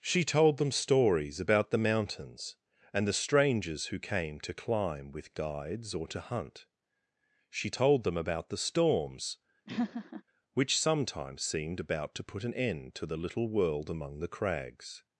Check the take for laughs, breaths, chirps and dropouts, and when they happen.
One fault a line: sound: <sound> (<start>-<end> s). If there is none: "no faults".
sound: laugh (9.7-10.2 s)